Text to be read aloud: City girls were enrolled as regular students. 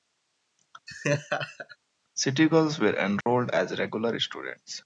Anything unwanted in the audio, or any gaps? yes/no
yes